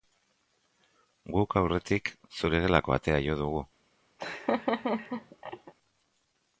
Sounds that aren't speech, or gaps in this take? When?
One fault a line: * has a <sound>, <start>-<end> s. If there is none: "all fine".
* has a laugh, 4.2-5.7 s